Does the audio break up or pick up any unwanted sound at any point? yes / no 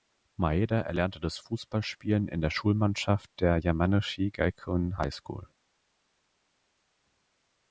no